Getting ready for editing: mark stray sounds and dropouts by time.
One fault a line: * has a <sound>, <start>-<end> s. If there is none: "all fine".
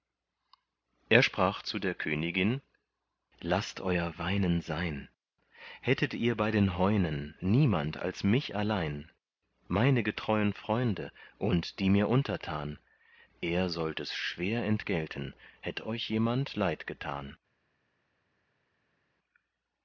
all fine